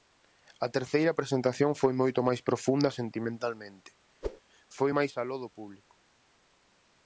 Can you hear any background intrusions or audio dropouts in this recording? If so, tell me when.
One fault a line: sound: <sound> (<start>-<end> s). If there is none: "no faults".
sound: whoosh (4.2-4.4 s)